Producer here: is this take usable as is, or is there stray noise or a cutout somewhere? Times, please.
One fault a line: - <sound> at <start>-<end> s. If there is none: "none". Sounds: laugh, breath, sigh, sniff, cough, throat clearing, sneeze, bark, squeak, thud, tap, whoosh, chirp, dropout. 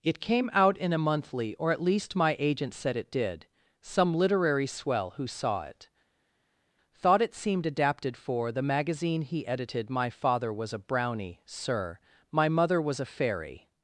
none